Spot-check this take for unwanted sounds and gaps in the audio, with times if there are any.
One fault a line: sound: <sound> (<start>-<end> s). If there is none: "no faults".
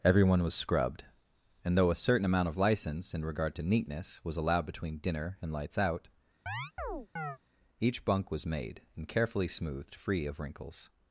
sound: chirp (6.5-7.4 s)